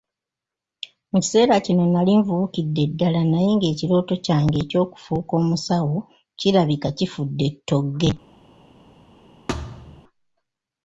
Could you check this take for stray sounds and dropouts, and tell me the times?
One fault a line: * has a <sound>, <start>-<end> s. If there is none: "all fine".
* has a thud, 9.5-10.0 s